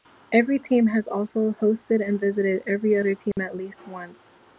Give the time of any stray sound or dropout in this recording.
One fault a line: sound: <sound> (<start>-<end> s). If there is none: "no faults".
sound: dropout (3.3-3.4 s)